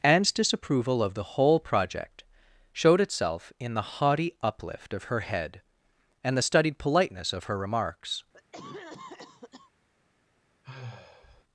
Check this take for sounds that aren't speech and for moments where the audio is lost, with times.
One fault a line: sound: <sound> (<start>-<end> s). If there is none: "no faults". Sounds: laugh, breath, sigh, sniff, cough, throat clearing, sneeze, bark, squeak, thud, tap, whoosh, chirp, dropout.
sound: cough (8.3-9.7 s)
sound: sigh (10.6-11.4 s)